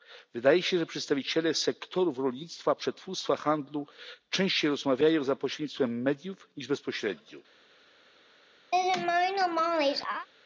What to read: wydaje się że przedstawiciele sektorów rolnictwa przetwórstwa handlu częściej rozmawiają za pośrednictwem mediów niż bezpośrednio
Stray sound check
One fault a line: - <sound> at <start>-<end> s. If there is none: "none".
- laugh at 8.7-10.3 s